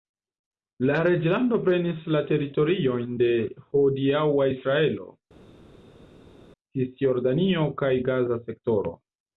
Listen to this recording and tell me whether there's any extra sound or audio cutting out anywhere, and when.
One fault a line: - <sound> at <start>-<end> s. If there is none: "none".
none